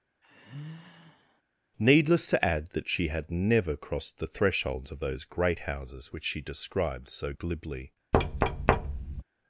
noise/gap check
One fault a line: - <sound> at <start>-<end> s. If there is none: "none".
- sigh at 0.2-1.4 s
- thud at 8.1-9.2 s